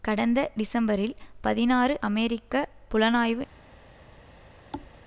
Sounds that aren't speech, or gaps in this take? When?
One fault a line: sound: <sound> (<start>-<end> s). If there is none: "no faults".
sound: thud (4.7-4.9 s)